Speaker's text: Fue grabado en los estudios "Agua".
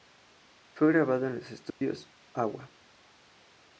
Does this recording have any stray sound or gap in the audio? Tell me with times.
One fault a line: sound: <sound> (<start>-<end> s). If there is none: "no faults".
sound: dropout (1.7-1.8 s)